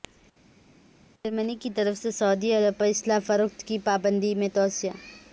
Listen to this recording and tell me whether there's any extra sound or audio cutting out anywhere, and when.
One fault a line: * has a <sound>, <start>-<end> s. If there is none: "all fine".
all fine